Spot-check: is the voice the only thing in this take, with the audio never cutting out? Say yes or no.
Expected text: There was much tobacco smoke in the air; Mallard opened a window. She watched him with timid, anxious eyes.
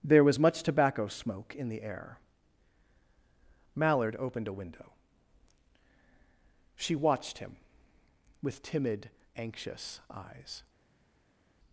yes